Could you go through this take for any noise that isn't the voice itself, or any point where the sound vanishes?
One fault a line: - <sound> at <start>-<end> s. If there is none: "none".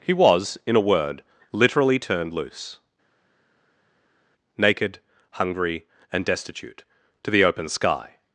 none